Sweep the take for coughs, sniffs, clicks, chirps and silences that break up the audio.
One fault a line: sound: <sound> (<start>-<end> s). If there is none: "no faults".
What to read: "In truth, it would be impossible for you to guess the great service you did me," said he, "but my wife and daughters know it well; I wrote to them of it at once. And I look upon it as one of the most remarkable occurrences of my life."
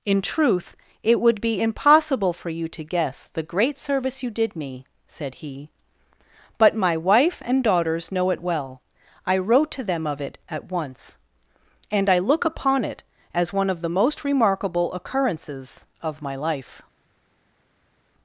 no faults